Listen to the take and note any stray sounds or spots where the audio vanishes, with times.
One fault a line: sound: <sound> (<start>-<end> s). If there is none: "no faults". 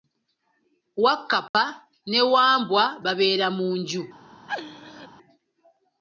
sound: dropout (1.5-1.5 s)
sound: laugh (4.5-5.1 s)